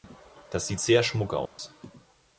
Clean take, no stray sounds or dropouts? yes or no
no